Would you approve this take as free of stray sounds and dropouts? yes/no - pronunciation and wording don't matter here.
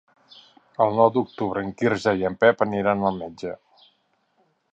yes